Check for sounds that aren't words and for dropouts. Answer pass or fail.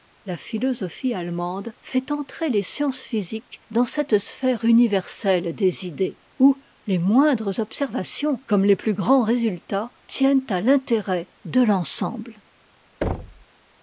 fail